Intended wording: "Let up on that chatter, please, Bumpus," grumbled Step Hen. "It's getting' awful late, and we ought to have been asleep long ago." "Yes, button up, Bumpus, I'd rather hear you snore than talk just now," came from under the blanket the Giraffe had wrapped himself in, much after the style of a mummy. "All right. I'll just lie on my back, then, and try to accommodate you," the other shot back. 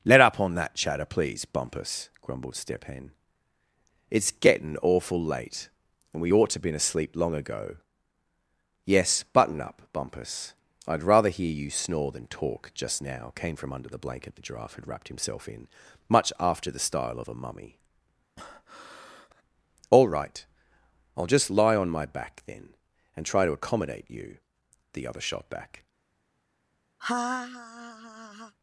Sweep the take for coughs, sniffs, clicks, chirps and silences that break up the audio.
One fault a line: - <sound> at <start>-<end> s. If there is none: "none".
- breath at 18.4-19.4 s
- laugh at 27.0-28.5 s